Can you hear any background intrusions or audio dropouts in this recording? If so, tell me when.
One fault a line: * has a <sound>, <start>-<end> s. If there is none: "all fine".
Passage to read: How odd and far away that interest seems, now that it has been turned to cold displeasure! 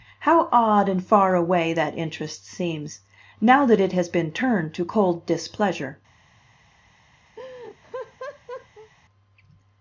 * has a laugh, 7.4-8.9 s